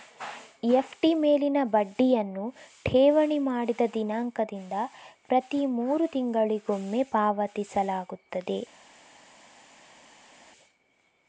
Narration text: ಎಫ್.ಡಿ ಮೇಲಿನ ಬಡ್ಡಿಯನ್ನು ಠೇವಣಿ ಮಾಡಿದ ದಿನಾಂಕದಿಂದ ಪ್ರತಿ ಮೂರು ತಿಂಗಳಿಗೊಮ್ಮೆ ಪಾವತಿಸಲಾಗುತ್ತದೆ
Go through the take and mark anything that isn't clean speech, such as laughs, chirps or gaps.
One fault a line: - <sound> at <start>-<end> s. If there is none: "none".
none